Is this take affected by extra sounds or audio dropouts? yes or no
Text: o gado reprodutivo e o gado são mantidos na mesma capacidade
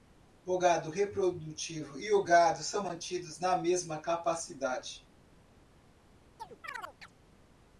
yes